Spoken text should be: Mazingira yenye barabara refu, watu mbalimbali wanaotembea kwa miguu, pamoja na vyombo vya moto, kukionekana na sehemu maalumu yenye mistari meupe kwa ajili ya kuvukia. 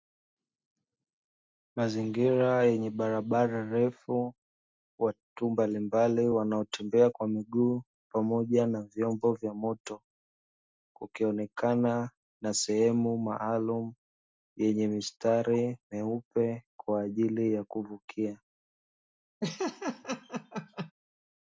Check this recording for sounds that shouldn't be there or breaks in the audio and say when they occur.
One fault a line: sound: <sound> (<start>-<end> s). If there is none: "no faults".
sound: laugh (19.4-20.9 s)